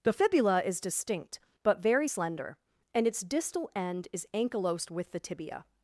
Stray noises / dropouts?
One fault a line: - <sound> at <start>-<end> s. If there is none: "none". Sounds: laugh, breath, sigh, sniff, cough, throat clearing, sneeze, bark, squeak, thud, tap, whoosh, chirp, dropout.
none